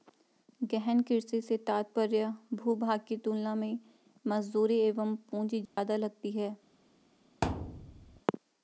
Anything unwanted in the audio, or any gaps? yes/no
yes